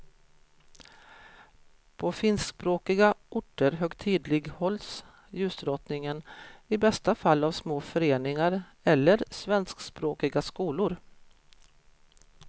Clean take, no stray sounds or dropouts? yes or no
yes